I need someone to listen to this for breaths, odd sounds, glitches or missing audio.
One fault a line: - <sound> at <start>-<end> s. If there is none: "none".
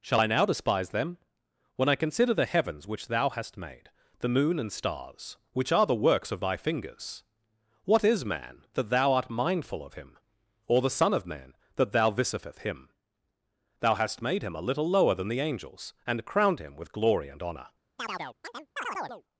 - chirp at 18.0-19.2 s